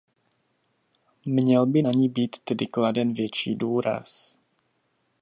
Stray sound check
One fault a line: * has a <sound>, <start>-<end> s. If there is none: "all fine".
all fine